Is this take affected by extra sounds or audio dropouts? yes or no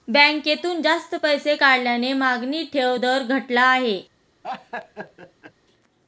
yes